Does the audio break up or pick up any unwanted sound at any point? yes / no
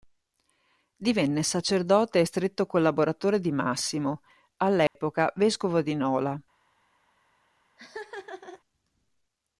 yes